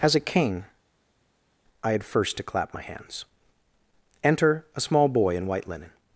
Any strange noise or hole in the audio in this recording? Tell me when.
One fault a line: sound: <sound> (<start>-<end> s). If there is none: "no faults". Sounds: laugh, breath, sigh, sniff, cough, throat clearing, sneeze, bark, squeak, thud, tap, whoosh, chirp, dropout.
no faults